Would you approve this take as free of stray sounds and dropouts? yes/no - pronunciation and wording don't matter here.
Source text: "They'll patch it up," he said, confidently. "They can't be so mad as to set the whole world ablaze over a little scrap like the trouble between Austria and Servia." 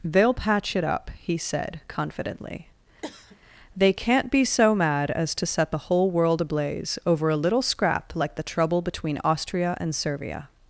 no